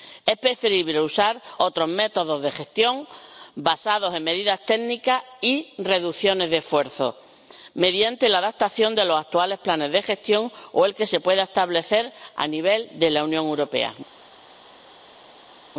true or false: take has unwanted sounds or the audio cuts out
false